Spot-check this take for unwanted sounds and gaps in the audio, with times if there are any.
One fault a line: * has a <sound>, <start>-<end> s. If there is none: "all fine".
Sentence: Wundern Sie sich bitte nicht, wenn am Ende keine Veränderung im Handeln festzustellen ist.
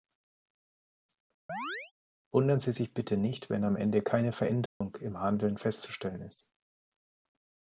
* has a chirp, 1.5-1.9 s
* has a dropout, 4.7-4.8 s